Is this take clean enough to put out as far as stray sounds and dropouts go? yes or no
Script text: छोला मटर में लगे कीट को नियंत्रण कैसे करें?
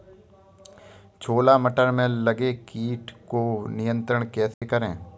no